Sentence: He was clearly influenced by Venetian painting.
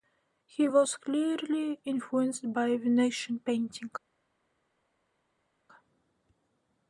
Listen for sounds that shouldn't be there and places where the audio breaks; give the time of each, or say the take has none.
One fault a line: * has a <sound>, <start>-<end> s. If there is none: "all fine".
all fine